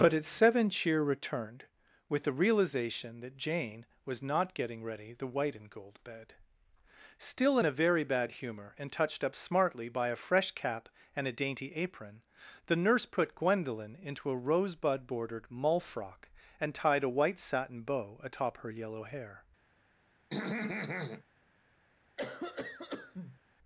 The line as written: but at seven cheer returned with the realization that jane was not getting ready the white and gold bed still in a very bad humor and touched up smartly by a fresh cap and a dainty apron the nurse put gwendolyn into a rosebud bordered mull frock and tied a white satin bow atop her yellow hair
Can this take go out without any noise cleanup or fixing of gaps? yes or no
no